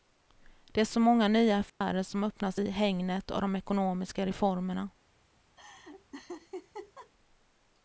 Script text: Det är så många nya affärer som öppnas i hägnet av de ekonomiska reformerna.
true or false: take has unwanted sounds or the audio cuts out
true